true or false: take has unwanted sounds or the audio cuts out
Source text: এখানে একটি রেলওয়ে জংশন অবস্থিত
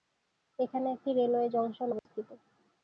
true